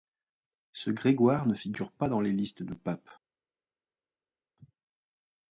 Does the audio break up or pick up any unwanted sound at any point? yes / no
no